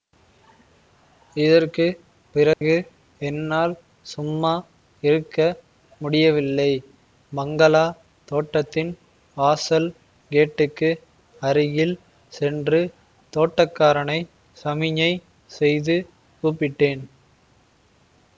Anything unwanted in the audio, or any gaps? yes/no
yes